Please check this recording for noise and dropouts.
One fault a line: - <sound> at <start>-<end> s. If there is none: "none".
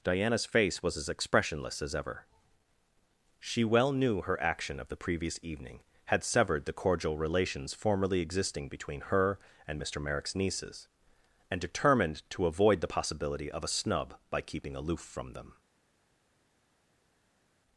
none